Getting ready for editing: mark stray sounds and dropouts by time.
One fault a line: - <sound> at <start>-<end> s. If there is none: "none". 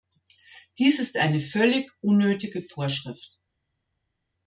none